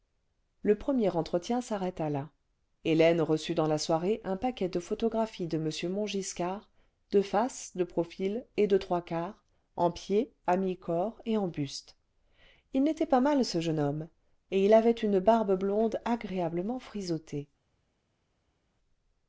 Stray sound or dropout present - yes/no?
no